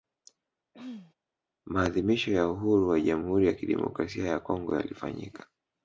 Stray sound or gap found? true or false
true